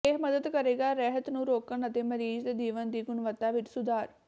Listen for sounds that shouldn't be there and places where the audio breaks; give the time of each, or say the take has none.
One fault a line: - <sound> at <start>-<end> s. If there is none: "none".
none